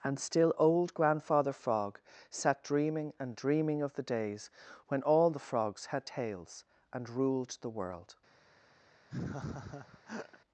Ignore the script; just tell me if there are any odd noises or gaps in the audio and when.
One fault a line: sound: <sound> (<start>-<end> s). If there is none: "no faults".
sound: laugh (9.1-10.4 s)